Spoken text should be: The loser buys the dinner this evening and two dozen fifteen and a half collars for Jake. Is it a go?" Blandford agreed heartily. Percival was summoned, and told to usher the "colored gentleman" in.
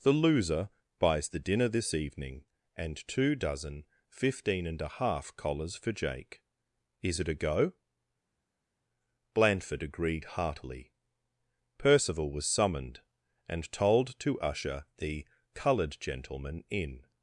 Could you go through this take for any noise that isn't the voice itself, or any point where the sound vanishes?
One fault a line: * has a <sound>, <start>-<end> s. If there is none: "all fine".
all fine